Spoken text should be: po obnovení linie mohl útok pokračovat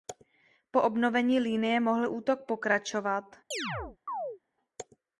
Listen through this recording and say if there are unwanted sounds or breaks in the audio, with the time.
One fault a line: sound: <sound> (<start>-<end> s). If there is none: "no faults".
sound: chirp (3.5-4.4 s)